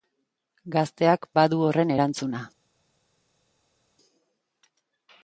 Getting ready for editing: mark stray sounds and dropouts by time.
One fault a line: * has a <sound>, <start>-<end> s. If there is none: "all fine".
all fine